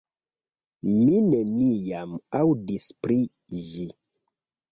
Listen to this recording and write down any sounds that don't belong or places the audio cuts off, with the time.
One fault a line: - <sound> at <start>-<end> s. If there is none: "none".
none